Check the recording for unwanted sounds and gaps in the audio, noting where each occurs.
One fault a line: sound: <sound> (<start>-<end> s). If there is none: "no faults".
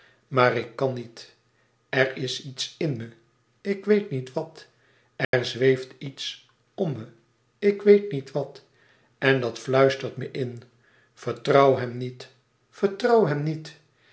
sound: dropout (5.2-5.3 s)